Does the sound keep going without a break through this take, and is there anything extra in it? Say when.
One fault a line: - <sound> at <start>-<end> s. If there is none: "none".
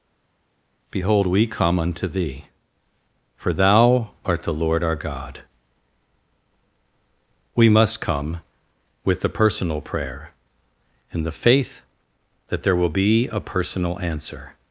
none